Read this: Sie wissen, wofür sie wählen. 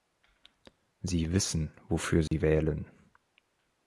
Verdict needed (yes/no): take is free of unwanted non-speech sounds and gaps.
no